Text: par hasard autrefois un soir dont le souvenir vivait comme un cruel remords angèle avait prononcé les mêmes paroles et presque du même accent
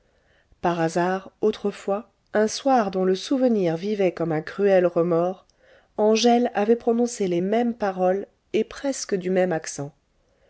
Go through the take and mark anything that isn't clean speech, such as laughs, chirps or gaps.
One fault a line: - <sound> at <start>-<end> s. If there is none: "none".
none